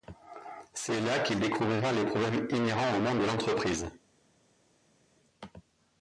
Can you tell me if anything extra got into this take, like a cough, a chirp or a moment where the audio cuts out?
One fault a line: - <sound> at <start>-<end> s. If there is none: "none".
none